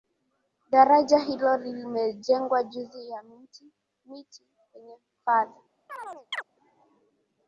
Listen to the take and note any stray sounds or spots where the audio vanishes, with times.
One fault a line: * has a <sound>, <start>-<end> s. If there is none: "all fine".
* has a chirp, 5.9-6.4 s